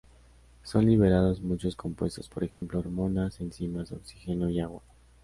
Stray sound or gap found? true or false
true